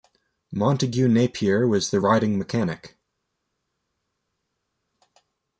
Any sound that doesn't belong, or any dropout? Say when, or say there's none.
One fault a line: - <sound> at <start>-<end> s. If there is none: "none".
none